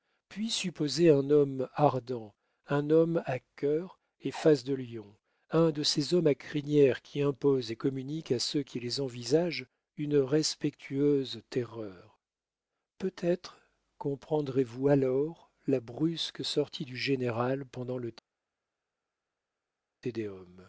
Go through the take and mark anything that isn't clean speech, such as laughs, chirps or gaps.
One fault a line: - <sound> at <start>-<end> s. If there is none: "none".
none